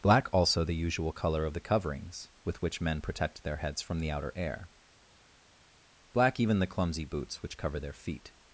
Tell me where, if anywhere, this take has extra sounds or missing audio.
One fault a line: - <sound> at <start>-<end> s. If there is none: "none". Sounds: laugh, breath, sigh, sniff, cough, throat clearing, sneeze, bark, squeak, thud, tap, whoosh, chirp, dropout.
none